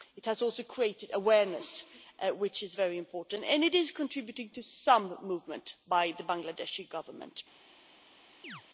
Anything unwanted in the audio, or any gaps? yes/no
yes